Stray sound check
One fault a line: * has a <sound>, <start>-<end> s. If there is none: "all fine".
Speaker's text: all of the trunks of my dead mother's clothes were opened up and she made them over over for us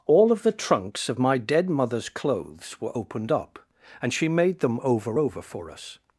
all fine